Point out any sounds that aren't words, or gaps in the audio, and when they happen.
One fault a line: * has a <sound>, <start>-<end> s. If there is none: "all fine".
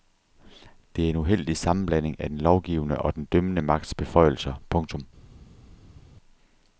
all fine